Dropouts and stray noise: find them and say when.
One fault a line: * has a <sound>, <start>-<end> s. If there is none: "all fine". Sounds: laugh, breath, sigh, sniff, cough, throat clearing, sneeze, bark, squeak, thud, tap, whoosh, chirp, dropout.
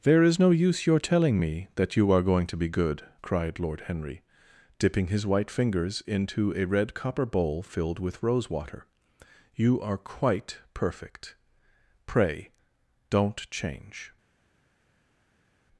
all fine